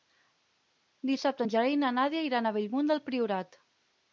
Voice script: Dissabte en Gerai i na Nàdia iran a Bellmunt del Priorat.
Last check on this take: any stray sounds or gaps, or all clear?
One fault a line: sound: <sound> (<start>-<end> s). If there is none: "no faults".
no faults